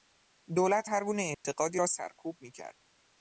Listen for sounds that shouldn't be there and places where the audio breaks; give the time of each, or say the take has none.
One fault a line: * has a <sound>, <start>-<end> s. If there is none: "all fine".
* has a dropout, 1.3-1.4 s